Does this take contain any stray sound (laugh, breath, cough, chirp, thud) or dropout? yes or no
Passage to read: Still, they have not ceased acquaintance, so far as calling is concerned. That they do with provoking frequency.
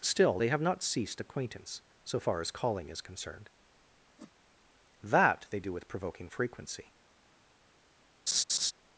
yes